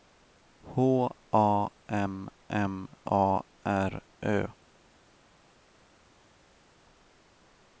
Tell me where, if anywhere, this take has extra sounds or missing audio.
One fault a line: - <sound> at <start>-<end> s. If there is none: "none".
none